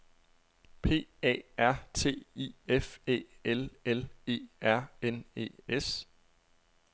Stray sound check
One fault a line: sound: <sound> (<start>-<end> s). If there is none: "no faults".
no faults